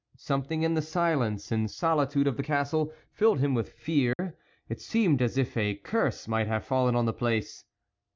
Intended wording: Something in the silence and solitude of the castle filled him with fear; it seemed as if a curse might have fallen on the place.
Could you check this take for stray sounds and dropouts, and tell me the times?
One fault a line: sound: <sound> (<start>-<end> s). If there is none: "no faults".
sound: dropout (4.1-4.2 s)